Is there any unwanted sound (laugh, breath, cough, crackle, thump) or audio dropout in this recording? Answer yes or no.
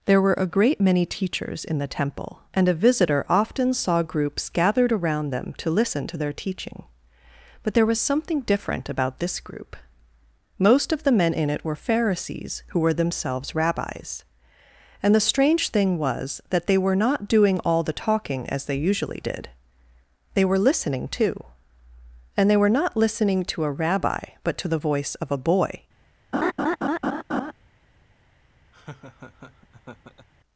yes